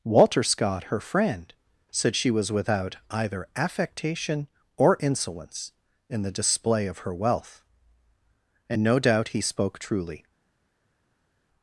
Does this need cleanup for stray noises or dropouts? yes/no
no